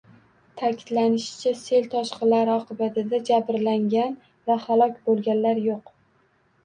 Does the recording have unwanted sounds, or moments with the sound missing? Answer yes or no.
no